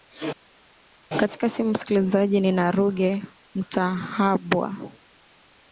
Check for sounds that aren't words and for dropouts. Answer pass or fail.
pass